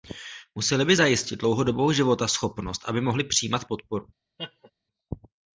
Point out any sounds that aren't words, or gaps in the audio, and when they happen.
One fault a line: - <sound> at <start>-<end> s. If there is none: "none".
- laugh at 4.4-4.7 s